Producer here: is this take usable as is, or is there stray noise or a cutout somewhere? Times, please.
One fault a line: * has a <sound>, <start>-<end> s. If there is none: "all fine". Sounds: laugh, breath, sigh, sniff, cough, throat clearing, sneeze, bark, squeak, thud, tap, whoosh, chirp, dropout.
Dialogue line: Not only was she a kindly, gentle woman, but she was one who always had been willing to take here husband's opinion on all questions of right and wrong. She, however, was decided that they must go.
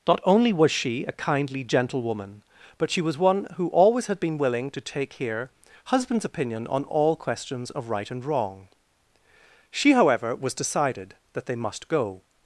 all fine